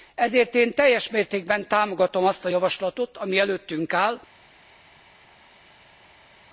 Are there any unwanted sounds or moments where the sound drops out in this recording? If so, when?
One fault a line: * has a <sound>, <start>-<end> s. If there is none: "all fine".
all fine